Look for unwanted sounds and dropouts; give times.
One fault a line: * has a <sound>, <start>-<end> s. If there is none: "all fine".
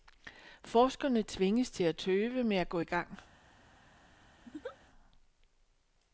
* has a laugh, 4.4-4.8 s